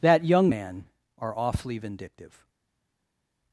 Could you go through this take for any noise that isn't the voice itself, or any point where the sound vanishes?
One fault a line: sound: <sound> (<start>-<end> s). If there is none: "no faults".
no faults